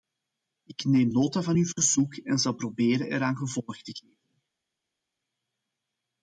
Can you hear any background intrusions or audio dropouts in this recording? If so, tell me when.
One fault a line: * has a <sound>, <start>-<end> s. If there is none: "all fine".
all fine